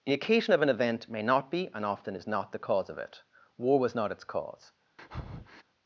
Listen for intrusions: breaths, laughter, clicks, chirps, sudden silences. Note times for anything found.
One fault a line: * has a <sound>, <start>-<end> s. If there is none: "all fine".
* has a breath, 5.0-5.6 s